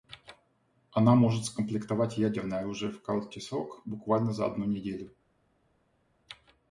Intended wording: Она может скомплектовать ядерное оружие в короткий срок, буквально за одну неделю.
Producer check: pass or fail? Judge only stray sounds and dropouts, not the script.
pass